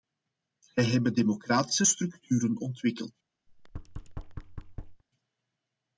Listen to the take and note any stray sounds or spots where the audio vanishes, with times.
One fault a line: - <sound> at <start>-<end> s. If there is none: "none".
- thud at 3.5-5.0 s